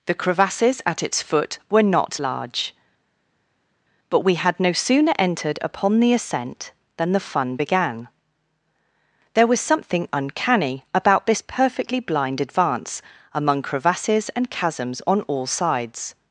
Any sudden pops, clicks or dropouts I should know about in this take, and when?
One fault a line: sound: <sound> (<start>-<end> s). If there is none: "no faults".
no faults